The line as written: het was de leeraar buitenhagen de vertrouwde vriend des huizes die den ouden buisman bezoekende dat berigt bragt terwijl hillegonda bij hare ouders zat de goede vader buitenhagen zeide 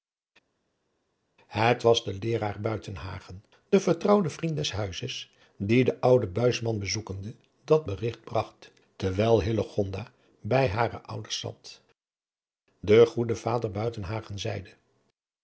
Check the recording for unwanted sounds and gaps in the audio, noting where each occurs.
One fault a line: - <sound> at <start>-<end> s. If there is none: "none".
none